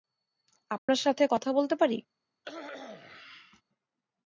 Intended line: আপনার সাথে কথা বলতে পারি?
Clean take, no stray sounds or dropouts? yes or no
no